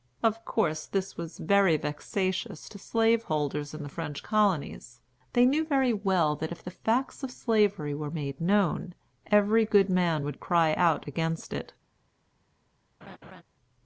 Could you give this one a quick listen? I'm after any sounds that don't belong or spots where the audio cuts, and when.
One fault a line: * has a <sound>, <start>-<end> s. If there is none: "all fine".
* has a laugh, 13.0-13.4 s